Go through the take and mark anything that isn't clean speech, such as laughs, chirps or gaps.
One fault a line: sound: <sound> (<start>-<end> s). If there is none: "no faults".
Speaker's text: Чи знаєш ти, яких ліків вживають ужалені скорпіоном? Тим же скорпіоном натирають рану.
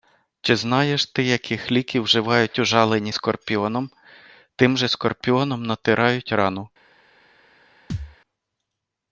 sound: thud (7.9-8.2 s)